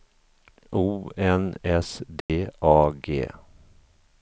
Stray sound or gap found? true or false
true